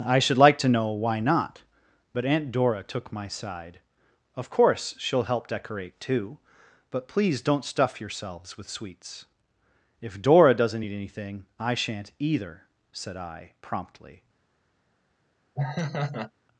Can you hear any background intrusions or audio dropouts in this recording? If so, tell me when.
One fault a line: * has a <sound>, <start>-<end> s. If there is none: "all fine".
* has a laugh, 15.5-16.3 s